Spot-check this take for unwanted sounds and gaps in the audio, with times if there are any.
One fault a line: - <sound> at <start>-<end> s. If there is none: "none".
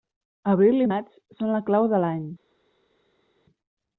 none